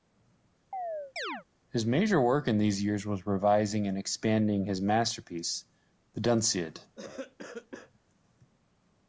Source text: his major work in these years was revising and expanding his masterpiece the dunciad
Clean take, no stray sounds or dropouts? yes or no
no